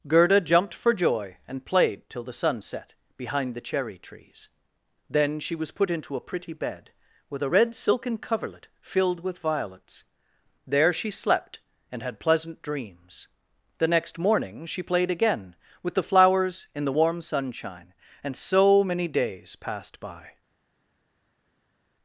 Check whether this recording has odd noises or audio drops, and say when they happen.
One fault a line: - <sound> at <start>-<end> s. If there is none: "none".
none